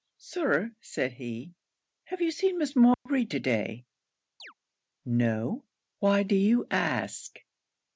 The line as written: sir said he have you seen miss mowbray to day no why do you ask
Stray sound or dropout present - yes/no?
yes